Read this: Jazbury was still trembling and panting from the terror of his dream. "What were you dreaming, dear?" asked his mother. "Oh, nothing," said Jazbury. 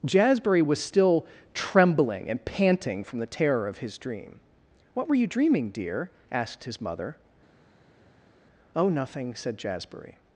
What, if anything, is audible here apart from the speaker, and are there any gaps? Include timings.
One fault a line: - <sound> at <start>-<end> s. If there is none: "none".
none